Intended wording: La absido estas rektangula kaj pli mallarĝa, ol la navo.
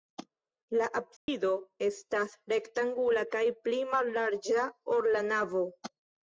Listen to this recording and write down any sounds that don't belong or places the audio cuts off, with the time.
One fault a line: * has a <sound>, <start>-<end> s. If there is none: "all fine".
* has a dropout, 1.2-1.3 s